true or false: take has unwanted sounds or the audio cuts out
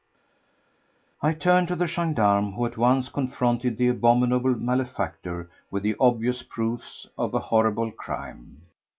false